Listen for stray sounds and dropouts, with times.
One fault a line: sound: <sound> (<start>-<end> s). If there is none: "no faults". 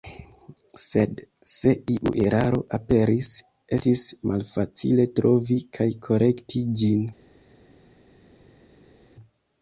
no faults